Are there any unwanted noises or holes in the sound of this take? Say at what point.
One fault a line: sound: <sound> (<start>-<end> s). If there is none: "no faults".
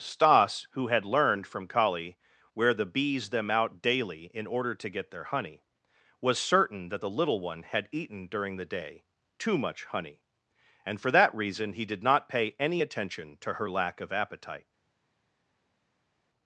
no faults